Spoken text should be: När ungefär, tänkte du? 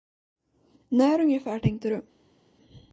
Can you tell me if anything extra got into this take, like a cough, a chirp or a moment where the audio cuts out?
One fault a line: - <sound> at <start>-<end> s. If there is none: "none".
none